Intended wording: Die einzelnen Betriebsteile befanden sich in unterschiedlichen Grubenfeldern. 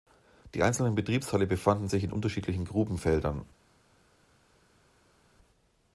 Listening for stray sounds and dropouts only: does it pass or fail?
pass